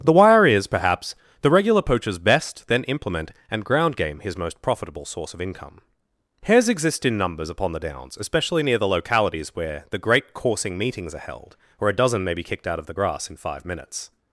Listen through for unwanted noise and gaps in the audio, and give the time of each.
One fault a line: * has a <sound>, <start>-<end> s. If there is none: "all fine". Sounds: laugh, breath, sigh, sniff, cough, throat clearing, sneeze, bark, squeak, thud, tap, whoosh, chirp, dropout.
all fine